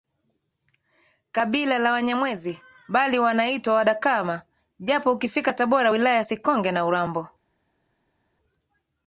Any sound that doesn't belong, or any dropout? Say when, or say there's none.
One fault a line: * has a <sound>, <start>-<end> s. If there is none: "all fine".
all fine